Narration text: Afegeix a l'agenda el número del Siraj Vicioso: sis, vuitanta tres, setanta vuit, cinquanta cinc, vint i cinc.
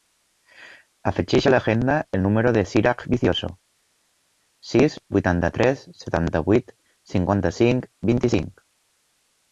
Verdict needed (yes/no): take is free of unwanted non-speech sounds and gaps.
yes